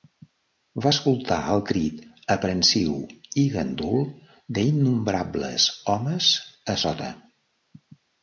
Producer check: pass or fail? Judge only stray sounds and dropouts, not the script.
pass